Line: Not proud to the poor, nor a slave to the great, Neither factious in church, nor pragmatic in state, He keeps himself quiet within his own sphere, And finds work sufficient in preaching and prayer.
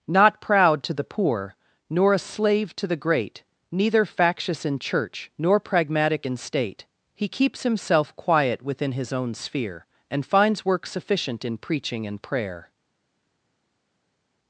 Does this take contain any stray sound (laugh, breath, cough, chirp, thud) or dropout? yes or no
no